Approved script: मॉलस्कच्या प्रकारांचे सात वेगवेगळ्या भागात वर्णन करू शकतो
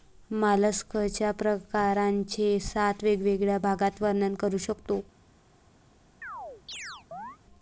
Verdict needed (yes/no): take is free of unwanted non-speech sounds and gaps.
no